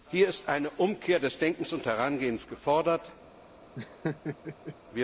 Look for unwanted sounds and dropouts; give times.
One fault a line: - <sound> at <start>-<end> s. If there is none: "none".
- laugh at 3.7-4.8 s